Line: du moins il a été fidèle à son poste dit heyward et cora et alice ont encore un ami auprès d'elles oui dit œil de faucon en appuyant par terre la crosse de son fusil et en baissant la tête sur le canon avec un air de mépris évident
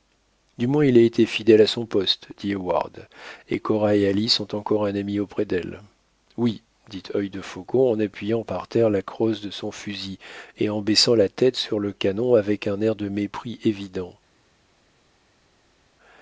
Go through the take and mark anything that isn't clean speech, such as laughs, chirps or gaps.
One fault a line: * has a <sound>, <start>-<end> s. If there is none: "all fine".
all fine